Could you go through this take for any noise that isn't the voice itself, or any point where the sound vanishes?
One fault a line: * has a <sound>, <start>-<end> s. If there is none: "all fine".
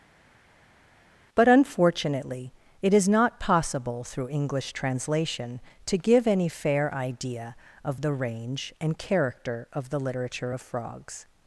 all fine